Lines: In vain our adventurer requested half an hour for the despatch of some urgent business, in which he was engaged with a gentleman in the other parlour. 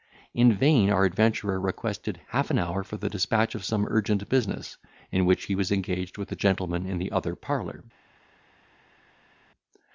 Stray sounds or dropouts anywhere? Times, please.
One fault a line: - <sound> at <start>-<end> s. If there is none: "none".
none